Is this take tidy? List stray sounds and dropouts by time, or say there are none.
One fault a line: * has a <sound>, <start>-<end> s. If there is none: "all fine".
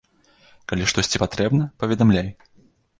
all fine